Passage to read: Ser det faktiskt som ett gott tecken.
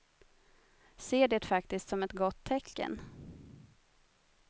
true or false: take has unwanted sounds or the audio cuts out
false